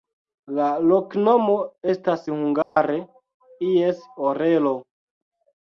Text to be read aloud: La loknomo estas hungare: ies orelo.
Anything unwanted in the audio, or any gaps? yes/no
yes